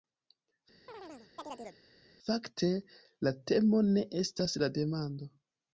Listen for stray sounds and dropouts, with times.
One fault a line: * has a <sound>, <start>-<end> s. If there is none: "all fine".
* has a chirp, 0.9-1.8 s